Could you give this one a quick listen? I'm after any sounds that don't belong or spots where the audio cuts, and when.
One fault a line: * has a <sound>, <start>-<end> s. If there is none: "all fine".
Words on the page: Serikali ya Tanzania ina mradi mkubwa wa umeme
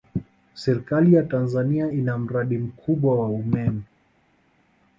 all fine